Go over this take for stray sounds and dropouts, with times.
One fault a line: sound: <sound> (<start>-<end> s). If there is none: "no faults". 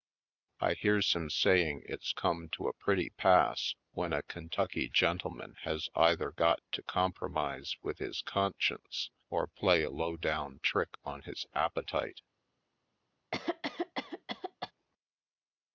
sound: cough (13.3-14.7 s)